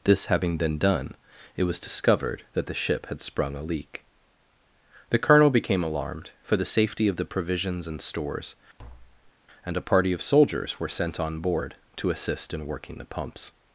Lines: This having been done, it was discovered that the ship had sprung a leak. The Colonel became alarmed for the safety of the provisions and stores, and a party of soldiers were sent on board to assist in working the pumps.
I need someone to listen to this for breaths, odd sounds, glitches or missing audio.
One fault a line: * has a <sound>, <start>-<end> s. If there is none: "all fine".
* has a tap, 8.8-9.3 s